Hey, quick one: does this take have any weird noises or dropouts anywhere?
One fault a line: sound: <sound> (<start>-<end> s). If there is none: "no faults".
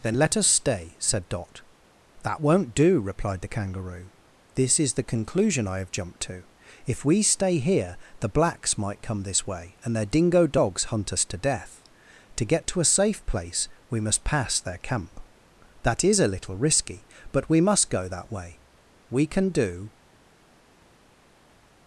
no faults